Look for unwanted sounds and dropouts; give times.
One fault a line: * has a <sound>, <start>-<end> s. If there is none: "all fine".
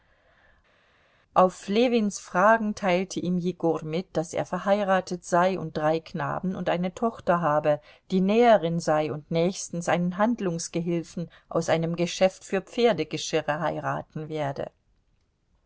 all fine